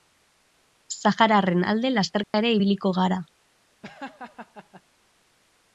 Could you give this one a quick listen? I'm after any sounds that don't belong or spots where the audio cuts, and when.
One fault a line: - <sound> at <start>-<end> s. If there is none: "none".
- dropout at 2.2-2.3 s
- laugh at 3.8-4.8 s